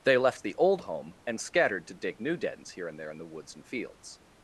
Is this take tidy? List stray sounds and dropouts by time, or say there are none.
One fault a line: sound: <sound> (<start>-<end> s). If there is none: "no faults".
no faults